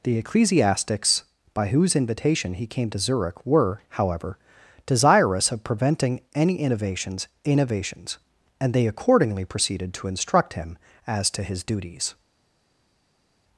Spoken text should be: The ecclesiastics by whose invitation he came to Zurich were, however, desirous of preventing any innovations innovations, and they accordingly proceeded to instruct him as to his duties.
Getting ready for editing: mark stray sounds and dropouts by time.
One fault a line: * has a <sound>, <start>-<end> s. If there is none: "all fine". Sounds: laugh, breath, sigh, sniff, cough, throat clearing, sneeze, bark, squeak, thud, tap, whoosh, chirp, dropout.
all fine